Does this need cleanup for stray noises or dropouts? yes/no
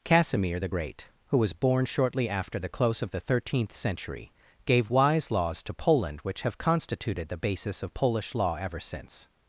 no